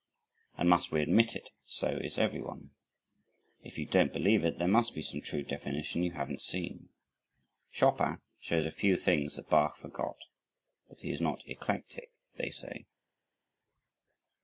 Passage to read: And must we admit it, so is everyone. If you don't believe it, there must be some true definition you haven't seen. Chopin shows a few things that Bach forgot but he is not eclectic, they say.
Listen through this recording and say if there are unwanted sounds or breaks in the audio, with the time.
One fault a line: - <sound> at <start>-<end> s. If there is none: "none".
none